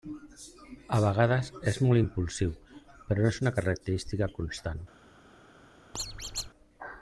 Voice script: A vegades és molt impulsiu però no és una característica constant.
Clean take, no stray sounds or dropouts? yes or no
no